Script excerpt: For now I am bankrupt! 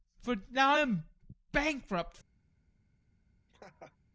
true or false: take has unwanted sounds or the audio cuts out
true